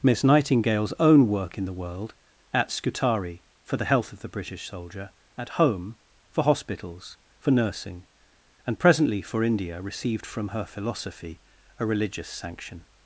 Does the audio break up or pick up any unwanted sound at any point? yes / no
no